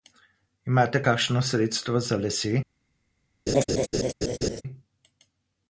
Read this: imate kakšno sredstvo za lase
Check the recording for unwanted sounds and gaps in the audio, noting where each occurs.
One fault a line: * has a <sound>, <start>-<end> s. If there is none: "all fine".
* has a laugh, 3.5-4.6 s